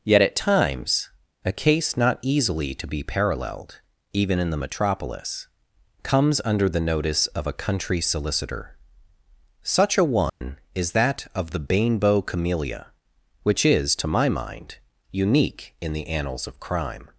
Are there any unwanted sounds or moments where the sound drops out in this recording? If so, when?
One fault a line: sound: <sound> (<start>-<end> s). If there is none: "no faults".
sound: dropout (10.3-10.4 s)